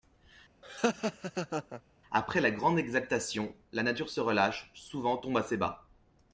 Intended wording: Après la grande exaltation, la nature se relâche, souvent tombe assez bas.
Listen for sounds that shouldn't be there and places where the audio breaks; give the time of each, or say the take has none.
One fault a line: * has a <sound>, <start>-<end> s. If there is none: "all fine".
* has a laugh, 0.6-1.8 s